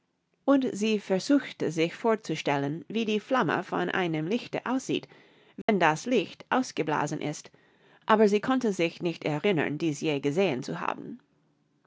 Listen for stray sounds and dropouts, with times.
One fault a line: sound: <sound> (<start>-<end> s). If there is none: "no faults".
sound: dropout (5.6-5.7 s)